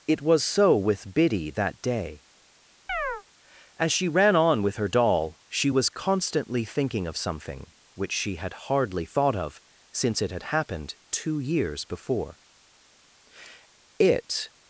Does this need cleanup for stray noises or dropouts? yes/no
yes